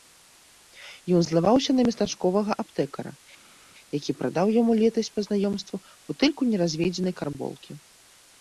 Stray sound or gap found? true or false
false